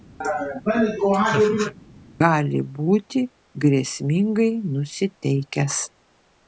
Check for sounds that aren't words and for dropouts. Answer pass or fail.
fail